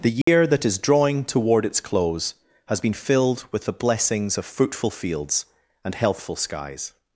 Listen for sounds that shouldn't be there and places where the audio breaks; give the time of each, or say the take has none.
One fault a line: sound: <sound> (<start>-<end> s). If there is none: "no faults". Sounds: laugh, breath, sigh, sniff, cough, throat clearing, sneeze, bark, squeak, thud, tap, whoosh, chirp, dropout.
sound: dropout (0.2-0.3 s)